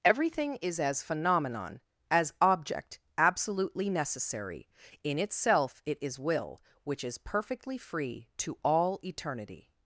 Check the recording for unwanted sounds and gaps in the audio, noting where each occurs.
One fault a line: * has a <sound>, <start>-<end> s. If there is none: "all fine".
all fine